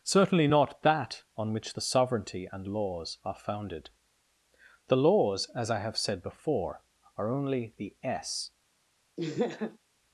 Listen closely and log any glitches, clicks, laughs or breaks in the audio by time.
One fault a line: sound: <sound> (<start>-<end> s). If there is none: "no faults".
sound: laugh (9.2-9.8 s)